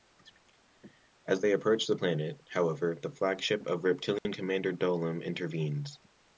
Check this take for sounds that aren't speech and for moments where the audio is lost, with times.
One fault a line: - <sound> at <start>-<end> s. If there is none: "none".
- dropout at 4.2-4.2 s